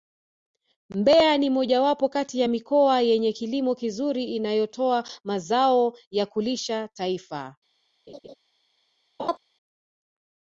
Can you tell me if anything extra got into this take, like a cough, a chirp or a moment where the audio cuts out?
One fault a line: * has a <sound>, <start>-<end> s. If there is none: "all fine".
* has a laugh, 8.1-8.4 s
* has a laugh, 9.2-9.4 s